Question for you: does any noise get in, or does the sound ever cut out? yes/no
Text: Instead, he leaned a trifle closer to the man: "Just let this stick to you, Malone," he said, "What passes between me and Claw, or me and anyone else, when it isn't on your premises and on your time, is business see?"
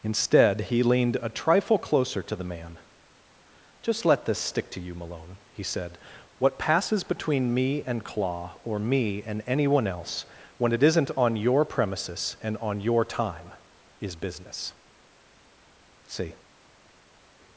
no